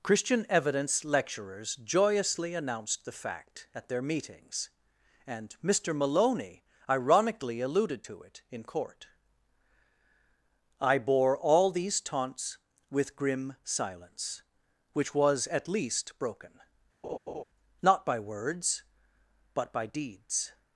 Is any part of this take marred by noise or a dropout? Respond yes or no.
yes